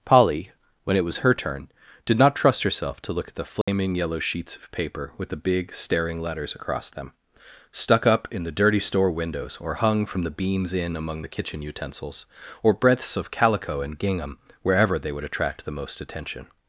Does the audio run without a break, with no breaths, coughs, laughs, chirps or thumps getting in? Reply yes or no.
no